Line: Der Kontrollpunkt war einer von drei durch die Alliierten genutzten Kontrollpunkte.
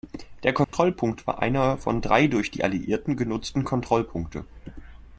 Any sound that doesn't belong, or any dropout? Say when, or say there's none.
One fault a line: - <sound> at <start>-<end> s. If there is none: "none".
- dropout at 0.6-0.7 s